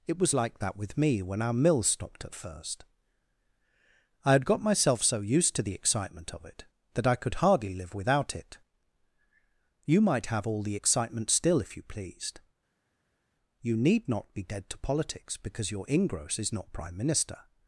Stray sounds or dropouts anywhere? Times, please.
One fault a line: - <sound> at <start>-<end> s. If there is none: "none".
none